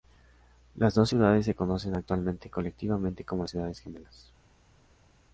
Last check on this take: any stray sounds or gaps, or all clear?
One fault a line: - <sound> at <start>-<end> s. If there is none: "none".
none